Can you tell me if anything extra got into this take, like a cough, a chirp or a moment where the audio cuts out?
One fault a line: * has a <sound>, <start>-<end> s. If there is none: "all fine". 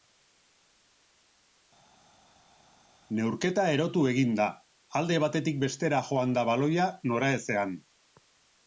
all fine